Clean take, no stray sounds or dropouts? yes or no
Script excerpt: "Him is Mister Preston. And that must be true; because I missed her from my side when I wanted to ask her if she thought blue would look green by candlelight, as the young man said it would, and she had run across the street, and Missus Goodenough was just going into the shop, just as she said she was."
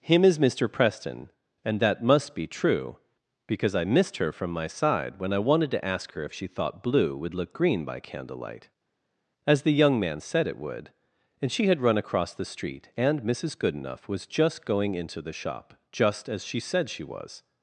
yes